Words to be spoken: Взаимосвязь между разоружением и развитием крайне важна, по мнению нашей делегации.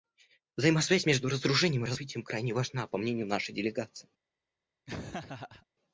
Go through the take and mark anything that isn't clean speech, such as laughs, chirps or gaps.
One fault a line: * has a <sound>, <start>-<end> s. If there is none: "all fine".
* has a laugh, 4.9-5.7 s